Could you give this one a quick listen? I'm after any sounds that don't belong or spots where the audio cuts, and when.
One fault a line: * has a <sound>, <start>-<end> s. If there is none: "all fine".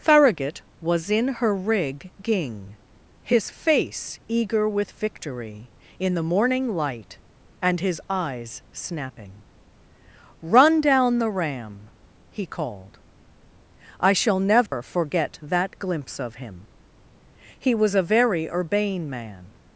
* has a dropout, 14.7-14.7 s